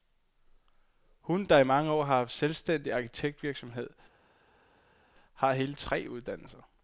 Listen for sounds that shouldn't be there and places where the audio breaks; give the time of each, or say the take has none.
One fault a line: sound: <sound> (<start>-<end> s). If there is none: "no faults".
no faults